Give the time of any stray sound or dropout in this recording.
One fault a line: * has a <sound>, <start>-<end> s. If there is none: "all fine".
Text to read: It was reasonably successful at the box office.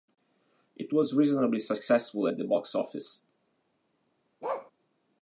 * has a bark, 4.4-4.7 s